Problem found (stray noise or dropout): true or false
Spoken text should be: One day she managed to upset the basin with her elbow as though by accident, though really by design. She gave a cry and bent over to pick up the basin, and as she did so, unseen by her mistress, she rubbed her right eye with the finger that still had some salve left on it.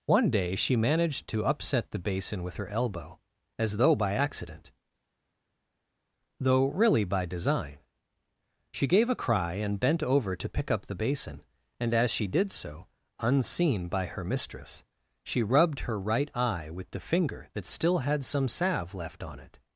false